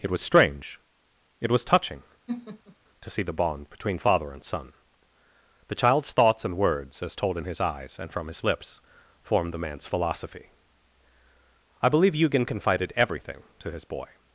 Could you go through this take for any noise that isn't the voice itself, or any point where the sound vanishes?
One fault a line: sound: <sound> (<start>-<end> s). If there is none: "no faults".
sound: laugh (2.3-2.8 s)